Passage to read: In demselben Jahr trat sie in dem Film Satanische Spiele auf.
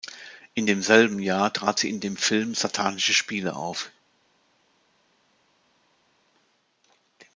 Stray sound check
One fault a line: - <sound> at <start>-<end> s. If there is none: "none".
none